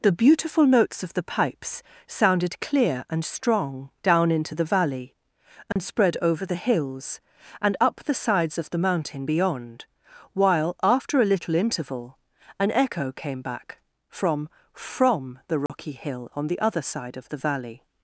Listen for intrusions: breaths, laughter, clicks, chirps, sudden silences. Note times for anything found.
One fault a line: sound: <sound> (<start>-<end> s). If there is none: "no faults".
sound: dropout (5.7-5.8 s)
sound: dropout (15.7-15.7 s)